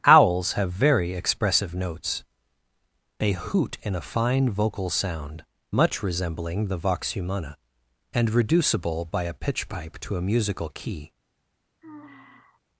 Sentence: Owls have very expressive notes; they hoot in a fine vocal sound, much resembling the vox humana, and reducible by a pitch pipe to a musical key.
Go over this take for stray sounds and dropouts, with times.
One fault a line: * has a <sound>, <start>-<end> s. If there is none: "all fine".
* has a sigh, 11.8-12.6 s